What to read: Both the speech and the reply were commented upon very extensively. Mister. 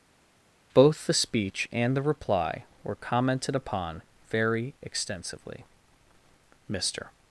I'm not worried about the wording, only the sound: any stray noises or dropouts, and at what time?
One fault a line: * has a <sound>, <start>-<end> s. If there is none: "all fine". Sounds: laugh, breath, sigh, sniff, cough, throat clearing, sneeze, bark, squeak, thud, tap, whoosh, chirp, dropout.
all fine